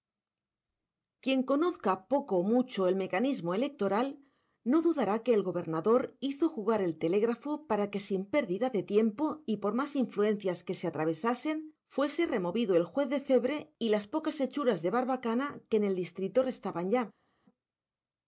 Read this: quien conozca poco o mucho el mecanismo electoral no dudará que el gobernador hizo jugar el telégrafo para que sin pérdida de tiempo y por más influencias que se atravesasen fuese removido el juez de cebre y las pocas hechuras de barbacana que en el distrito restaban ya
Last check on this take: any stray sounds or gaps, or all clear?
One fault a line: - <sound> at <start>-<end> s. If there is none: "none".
none